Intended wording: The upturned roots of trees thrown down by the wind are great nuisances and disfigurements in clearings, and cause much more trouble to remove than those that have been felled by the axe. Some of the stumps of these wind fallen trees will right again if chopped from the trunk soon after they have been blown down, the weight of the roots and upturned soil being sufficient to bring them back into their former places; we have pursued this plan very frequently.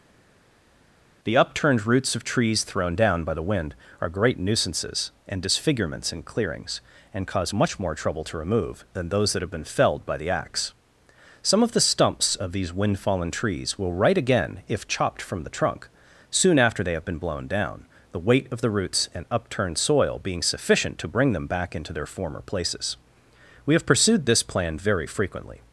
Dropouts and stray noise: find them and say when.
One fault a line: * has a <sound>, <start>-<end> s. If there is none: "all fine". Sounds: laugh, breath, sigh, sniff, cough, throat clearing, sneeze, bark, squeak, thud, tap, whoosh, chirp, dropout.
all fine